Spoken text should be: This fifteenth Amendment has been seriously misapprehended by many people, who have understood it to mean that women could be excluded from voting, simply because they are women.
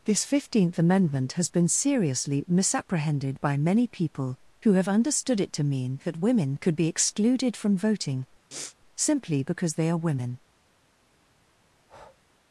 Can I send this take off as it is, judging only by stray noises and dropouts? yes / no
no